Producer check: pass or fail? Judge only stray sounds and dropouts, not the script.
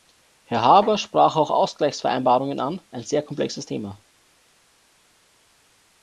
pass